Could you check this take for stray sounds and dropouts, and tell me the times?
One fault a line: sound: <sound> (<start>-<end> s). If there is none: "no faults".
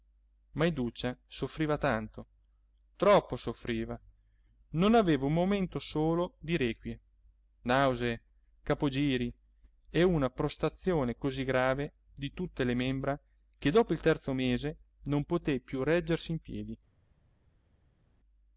no faults